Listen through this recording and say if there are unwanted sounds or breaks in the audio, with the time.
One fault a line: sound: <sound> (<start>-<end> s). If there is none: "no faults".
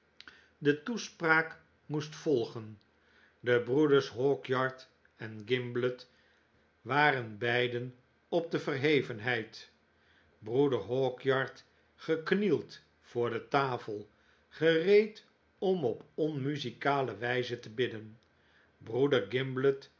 no faults